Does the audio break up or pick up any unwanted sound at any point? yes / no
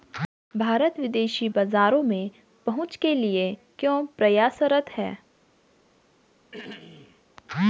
yes